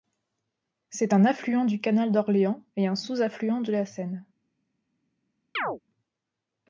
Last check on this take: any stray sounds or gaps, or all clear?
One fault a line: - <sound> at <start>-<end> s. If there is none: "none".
- chirp at 5.5-5.8 s